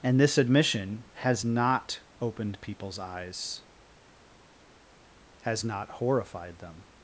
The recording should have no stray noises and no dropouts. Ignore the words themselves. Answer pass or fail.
pass